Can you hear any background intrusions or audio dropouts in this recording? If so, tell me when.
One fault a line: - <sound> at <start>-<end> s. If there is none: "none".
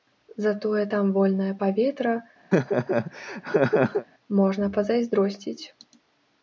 - laugh at 2.5-4.1 s